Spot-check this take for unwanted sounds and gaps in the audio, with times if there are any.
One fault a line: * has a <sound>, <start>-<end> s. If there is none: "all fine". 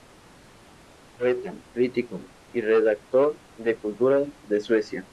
all fine